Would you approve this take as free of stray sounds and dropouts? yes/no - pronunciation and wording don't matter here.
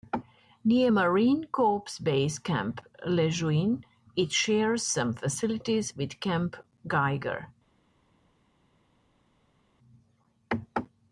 yes